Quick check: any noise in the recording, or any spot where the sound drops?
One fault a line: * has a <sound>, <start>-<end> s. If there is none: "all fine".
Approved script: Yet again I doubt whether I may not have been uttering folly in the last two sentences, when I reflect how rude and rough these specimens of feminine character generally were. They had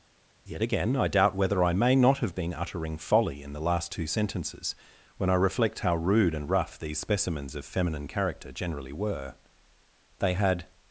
all fine